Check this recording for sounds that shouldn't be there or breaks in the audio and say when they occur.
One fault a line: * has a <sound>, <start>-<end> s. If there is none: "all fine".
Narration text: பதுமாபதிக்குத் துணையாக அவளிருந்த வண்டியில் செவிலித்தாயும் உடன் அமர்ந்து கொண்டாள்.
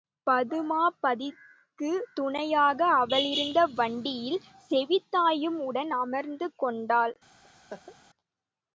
* has a laugh, 7.4-8.0 s